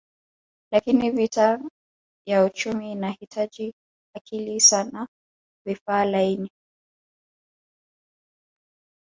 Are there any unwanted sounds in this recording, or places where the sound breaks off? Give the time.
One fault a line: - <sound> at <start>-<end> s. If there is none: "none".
none